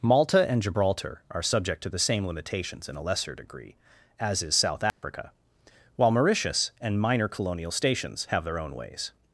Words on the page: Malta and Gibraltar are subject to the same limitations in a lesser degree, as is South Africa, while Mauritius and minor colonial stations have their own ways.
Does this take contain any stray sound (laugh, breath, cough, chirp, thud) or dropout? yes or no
yes